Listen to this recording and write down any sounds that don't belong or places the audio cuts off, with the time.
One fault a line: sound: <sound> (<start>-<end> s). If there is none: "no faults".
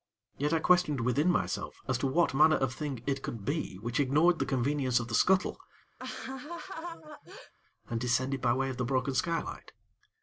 sound: laugh (6.0-7.5 s)